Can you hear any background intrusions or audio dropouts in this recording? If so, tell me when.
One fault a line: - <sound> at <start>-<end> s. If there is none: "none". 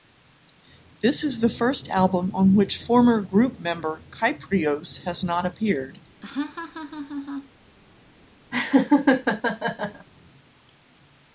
- laugh at 6.2-7.5 s
- laugh at 8.5-10.1 s